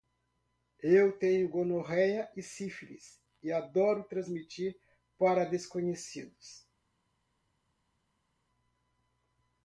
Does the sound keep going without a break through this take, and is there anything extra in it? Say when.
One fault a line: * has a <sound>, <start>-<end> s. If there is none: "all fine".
all fine